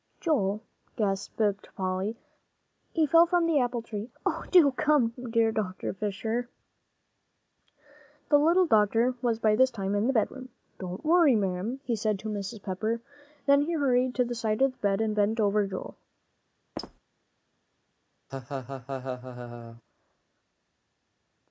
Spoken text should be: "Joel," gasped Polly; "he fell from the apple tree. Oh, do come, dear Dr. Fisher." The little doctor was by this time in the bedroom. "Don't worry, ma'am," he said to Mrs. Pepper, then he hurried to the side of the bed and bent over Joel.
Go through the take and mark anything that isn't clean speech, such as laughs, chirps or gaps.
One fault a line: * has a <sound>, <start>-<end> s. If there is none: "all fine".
* has a squeak, 16.8-17.0 s
* has a laugh, 18.3-19.8 s